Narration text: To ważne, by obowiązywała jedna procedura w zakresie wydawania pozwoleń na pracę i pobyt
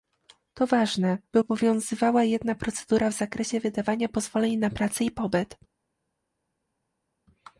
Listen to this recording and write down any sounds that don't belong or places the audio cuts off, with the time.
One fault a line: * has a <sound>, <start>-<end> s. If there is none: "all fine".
all fine